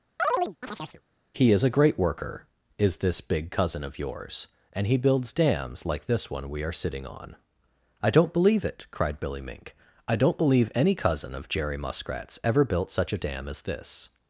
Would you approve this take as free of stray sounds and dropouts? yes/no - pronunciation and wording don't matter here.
no